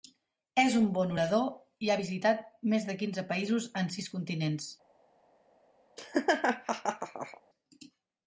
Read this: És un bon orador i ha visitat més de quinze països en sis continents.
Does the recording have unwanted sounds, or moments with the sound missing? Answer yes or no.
yes